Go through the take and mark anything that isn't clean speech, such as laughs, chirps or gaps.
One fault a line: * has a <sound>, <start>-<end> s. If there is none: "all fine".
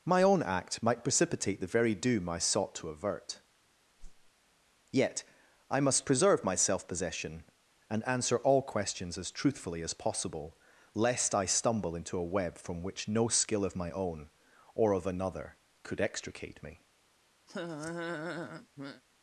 * has a whoosh, 4.0-4.3 s
* has a laugh, 17.5-19.0 s